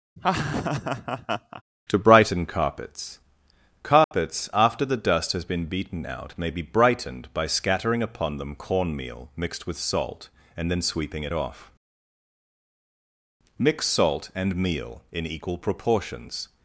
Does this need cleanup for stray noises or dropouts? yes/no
yes